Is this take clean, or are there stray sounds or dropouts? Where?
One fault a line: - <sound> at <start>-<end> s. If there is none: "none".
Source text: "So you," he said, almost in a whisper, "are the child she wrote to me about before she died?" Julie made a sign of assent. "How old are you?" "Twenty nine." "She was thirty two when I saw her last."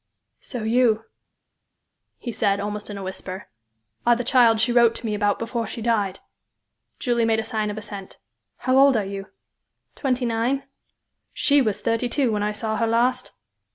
none